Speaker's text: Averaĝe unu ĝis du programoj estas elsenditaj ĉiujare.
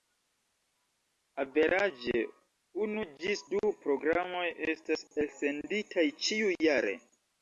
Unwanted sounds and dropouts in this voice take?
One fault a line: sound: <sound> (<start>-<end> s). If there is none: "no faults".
no faults